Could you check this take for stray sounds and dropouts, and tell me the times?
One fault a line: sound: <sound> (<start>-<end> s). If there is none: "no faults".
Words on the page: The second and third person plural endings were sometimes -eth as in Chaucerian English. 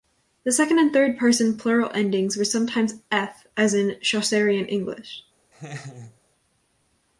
sound: laugh (5.5-6.2 s)